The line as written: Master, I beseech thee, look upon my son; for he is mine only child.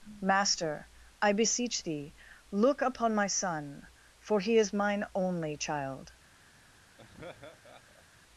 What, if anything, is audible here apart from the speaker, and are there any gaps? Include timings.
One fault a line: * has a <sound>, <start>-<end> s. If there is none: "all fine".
* has a laugh, 7.0-8.0 s